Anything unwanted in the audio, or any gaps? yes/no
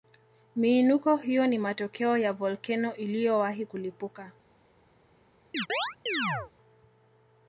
yes